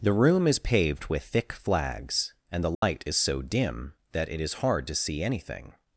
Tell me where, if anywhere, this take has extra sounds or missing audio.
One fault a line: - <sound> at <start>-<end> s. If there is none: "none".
- dropout at 2.7-2.8 s